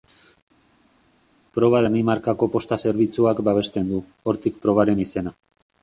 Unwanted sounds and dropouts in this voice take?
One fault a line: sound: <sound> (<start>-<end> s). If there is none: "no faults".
no faults